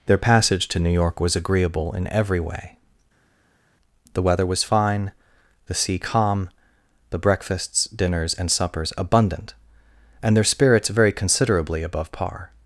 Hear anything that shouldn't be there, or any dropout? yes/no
no